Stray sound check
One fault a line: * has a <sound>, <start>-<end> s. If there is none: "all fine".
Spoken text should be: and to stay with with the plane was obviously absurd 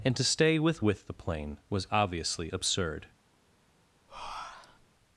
* has a breath, 4.1-4.9 s